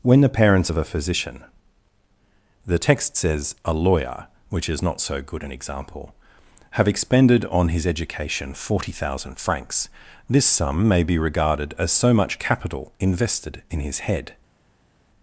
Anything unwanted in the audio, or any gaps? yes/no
no